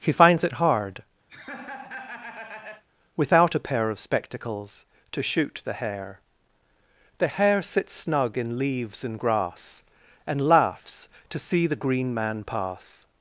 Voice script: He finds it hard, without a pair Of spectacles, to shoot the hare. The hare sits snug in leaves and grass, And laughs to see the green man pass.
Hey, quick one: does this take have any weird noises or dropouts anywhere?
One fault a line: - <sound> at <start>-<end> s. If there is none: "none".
- laugh at 1.3-2.8 s